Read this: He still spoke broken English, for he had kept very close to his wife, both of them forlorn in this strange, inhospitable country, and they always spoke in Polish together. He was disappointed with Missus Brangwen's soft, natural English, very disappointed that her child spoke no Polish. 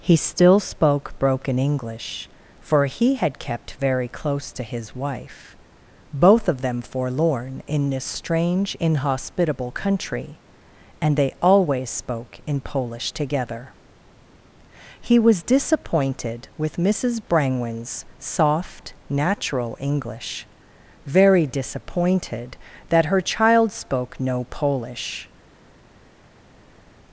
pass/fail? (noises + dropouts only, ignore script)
pass